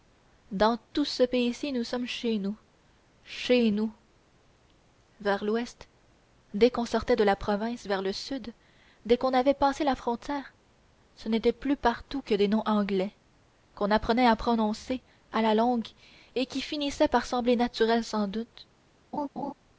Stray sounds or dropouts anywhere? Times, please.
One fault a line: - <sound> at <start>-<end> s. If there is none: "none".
- laugh at 19.1-19.5 s